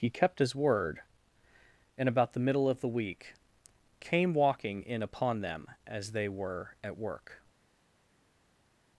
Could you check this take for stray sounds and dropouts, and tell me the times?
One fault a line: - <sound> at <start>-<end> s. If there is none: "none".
none